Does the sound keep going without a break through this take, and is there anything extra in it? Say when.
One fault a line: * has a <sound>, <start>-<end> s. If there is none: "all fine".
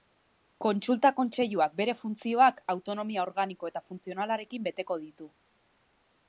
all fine